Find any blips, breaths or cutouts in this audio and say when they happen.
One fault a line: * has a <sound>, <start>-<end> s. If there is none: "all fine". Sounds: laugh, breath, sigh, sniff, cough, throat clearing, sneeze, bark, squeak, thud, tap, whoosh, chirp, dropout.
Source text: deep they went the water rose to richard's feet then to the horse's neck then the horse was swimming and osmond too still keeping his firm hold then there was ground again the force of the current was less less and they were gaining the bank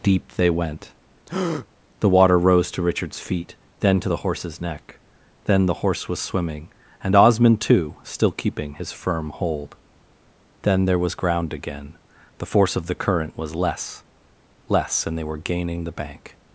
* has a breath, 1.3-1.7 s